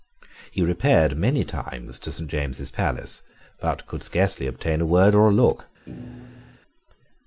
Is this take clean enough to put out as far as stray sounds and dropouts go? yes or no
no